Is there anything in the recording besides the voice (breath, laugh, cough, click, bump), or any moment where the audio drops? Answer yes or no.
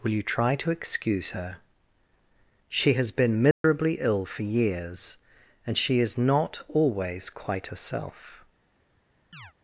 yes